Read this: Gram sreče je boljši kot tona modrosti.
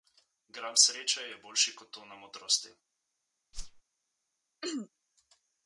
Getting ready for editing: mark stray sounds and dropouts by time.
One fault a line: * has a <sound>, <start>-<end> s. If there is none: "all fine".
* has a whoosh, 3.5-3.8 s
* has a throat clearing, 4.6-4.9 s